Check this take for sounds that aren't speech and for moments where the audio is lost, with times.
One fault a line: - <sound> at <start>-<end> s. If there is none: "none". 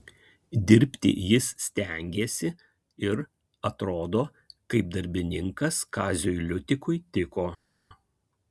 none